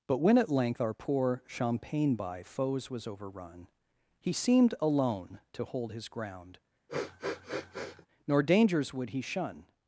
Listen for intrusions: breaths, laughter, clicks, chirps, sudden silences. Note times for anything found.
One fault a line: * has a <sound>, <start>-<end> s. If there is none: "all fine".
* has a sniff, 6.9-8.1 s